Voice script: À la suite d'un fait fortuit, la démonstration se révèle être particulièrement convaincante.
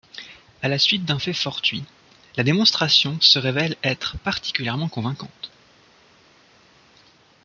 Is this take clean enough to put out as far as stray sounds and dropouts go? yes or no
yes